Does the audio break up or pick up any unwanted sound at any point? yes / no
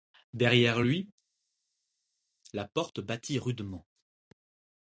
no